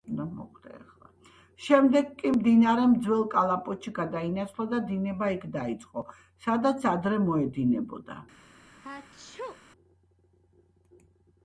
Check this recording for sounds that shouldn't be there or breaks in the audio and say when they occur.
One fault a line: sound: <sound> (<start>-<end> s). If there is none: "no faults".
sound: sneeze (8.8-9.6 s)